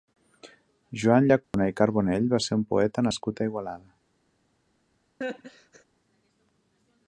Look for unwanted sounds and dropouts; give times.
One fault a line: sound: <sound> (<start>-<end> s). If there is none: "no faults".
sound: dropout (1.4-1.5 s)
sound: laugh (5.2-5.8 s)